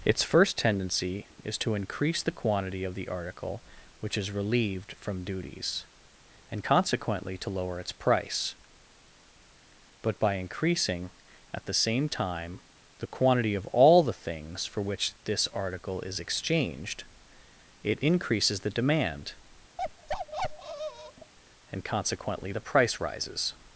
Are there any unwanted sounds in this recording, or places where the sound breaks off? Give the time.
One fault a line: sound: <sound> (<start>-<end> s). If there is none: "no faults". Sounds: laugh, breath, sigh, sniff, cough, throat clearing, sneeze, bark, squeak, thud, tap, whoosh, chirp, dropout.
sound: bark (19.8-21.3 s)